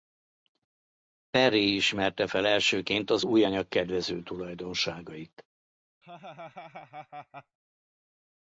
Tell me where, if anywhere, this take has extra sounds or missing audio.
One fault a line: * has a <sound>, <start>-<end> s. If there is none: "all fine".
* has a laugh, 6.0-7.6 s